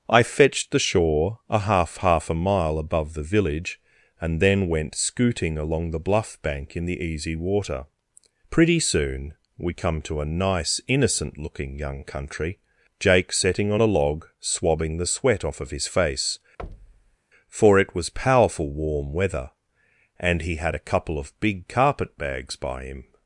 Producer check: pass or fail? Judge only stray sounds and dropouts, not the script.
fail